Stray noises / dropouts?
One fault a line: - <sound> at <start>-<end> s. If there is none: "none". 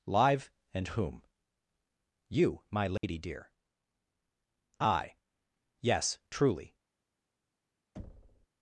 - dropout at 3.0-3.0 s
- thud at 8.0-8.5 s